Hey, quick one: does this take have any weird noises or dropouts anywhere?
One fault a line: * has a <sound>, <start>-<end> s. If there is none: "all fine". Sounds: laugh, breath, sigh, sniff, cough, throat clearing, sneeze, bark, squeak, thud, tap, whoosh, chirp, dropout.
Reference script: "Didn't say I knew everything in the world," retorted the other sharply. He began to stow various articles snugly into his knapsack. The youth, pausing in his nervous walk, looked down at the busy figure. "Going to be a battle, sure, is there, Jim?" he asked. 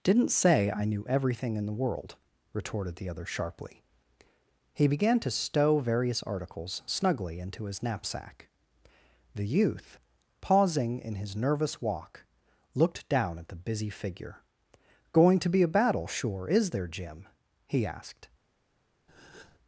* has a breath, 19.1-19.6 s